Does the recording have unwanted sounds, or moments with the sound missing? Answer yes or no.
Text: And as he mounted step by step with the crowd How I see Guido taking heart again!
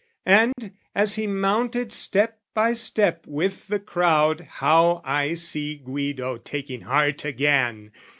yes